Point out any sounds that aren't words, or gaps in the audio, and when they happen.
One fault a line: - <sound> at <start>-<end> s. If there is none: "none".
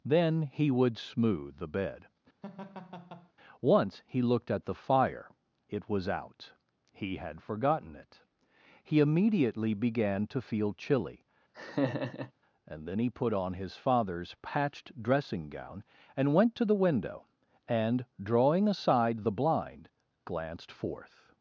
- laugh at 2.4-3.3 s
- laugh at 11.5-12.3 s